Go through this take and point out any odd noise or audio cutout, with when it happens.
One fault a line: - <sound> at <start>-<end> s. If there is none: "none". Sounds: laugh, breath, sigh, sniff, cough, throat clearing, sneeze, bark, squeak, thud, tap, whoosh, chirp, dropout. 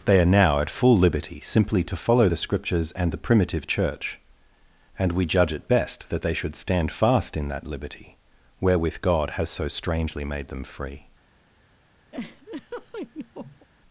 - laugh at 12.1-13.7 s